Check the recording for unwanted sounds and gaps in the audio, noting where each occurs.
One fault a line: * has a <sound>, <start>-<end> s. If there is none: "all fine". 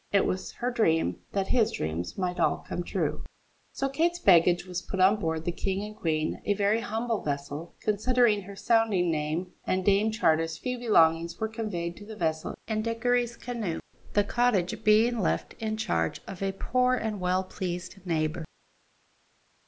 all fine